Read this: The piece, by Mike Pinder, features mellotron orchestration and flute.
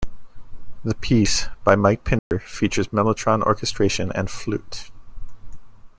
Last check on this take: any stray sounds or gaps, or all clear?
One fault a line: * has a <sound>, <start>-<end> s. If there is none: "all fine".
* has a dropout, 2.2-2.3 s